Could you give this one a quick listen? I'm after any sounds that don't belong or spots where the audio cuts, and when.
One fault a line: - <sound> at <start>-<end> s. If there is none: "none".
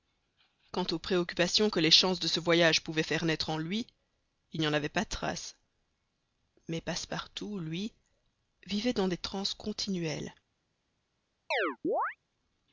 - chirp at 11.5-12.2 s